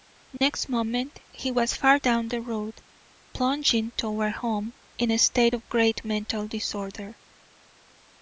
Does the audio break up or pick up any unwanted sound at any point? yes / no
yes